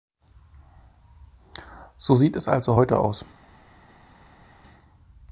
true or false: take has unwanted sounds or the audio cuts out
false